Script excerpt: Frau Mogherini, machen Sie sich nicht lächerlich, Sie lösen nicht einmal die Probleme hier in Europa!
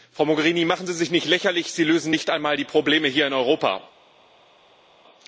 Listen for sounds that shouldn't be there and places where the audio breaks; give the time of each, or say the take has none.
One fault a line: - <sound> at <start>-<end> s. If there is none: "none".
none